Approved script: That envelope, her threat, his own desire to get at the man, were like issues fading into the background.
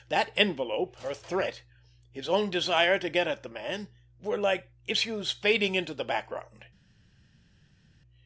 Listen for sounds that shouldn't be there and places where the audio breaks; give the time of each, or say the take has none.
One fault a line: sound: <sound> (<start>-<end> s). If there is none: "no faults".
no faults